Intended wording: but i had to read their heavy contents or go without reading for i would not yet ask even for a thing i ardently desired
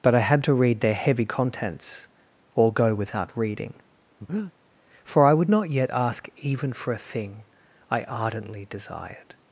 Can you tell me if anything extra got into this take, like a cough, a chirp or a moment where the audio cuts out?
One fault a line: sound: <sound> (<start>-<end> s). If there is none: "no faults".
sound: breath (4.2-4.5 s)